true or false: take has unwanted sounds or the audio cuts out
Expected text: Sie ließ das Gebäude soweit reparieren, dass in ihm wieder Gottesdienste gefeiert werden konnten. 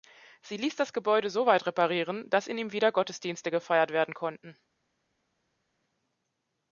false